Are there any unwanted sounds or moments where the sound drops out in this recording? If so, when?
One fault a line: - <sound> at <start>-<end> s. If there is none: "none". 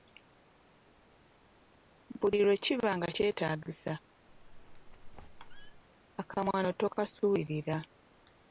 - squeak at 4.3-5.8 s